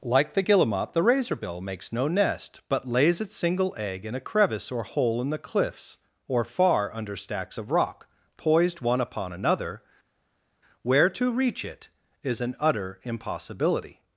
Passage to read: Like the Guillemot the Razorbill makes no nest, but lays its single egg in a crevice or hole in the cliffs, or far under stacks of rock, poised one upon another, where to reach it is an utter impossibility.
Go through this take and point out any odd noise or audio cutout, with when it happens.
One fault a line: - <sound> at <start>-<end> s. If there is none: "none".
none